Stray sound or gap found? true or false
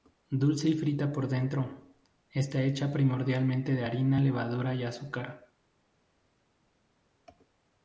false